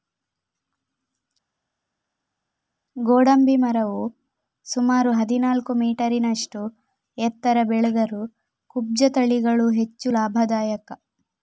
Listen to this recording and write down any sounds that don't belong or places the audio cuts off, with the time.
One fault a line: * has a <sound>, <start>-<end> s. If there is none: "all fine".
all fine